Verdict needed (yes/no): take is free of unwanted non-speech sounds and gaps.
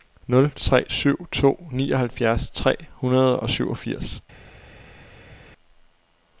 yes